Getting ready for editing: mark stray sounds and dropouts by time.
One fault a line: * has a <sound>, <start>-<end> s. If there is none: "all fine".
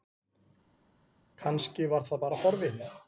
all fine